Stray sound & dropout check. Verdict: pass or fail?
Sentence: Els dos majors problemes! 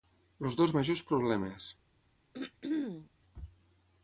fail